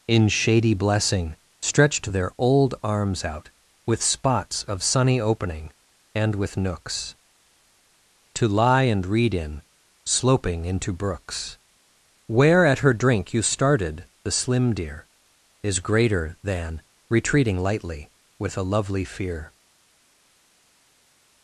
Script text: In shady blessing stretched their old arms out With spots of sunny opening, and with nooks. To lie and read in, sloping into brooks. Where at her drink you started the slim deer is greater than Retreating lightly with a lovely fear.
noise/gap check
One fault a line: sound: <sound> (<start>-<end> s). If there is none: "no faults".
no faults